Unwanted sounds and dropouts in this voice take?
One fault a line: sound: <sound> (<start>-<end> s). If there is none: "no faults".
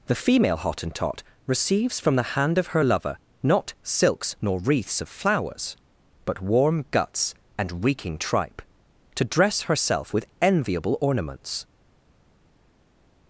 no faults